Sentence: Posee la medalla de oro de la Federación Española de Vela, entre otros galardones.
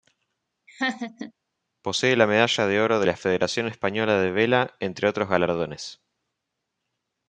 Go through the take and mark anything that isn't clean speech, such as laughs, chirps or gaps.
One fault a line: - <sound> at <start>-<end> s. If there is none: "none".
- laugh at 0.7-1.3 s